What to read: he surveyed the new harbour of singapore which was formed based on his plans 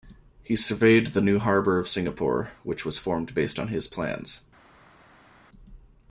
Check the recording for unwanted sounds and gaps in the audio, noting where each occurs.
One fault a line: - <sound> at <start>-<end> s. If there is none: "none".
none